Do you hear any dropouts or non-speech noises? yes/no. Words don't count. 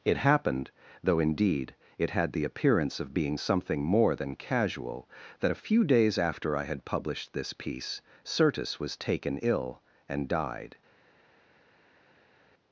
no